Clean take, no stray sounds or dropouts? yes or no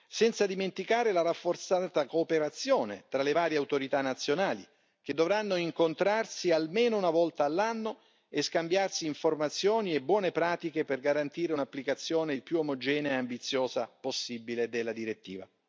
yes